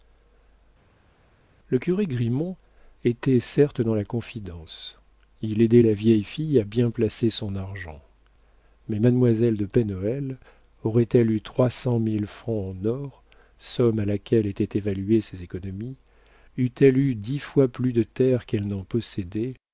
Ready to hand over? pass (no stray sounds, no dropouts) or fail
pass